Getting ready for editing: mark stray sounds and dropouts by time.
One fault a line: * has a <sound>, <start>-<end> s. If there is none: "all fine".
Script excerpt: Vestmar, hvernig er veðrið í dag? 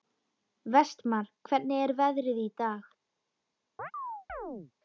* has a chirp, 3.8-4.7 s